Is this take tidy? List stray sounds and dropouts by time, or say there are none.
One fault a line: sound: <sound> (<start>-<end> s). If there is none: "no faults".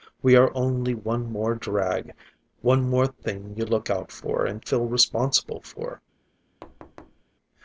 sound: thud (6.6-7.2 s)